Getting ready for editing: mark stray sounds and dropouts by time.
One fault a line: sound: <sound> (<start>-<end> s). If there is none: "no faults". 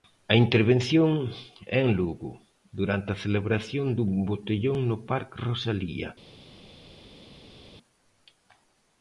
no faults